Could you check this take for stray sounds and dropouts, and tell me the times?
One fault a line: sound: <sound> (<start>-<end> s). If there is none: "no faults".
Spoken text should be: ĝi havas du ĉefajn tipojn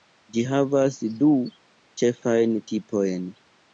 no faults